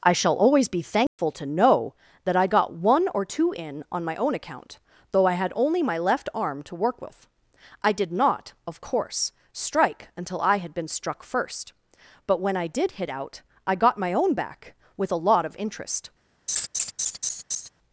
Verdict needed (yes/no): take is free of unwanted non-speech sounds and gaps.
no